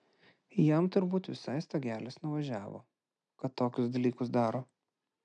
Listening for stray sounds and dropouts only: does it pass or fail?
pass